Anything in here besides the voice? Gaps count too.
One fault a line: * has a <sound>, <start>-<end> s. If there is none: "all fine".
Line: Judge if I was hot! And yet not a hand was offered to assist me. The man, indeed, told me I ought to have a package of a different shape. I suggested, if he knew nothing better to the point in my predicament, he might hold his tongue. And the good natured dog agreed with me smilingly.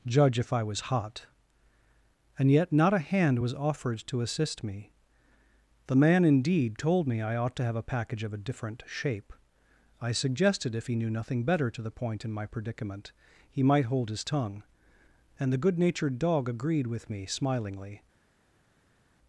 all fine